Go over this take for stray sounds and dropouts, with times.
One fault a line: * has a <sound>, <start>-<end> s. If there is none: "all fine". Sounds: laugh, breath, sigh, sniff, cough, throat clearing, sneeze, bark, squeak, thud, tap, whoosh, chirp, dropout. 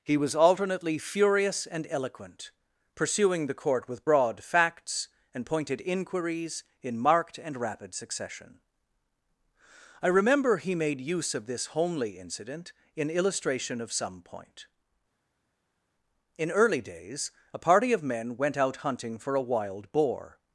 all fine